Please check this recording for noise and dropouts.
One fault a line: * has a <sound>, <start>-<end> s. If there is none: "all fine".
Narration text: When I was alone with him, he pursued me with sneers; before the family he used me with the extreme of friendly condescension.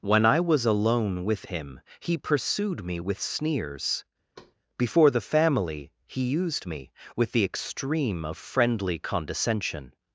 * has a thud, 4.4-4.6 s